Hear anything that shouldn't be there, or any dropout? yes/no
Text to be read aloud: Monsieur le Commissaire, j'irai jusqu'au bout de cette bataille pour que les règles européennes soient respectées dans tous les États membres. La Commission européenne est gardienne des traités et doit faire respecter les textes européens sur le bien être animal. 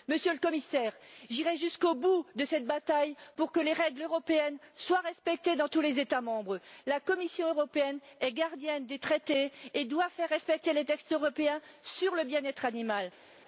no